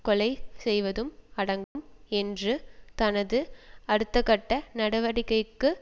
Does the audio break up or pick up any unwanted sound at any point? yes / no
yes